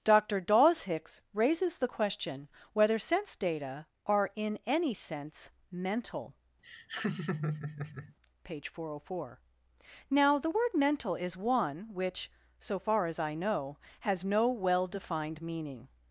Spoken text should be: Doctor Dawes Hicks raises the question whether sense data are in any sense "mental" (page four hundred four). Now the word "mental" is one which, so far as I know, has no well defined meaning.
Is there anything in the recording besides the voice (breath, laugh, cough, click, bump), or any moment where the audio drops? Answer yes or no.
yes